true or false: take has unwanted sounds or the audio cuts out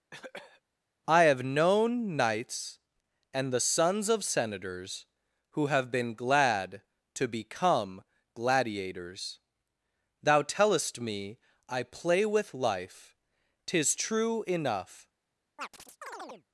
true